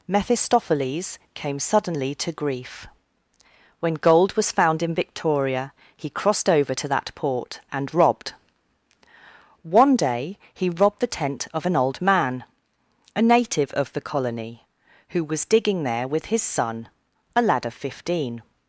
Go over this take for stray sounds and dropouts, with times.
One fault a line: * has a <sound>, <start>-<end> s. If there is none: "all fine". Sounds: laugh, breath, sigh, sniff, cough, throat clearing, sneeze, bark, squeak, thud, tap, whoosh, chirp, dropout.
all fine